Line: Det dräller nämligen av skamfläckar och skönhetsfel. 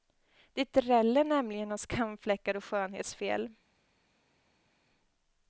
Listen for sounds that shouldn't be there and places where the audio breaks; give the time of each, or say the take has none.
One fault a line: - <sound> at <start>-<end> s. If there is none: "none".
none